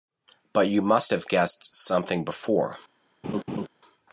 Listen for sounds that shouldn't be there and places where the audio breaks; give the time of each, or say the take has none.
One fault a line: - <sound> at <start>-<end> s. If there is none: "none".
- laugh at 3.2-3.7 s